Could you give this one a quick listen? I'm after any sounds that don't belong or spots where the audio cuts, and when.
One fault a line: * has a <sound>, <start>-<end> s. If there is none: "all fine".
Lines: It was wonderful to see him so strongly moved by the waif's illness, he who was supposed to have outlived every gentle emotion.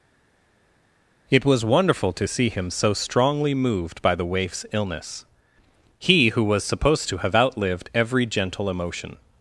all fine